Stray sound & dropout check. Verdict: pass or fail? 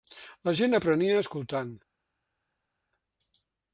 pass